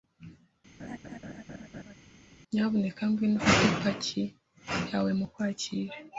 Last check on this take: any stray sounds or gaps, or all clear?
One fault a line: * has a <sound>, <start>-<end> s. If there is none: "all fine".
* has a laugh, 0.8-1.9 s